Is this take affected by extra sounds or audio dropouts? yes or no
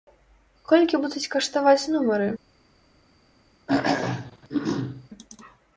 yes